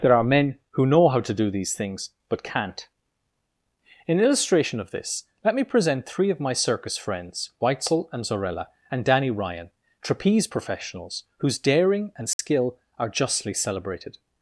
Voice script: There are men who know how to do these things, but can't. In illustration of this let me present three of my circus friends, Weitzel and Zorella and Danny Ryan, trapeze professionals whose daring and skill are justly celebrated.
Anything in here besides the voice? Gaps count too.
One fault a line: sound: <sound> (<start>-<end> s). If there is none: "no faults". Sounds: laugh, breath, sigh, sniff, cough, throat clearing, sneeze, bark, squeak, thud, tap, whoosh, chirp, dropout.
sound: dropout (12.3-12.4 s)